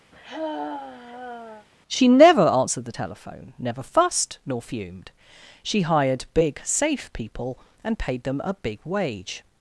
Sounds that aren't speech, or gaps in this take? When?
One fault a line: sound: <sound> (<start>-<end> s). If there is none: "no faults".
sound: sigh (0.1-1.7 s)